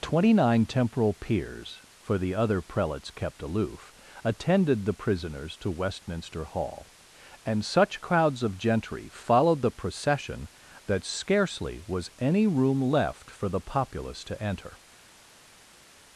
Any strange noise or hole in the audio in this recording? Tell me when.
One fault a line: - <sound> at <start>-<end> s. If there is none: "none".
none